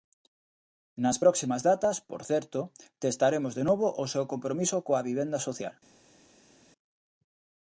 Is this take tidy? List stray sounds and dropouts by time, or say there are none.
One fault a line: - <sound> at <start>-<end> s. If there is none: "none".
none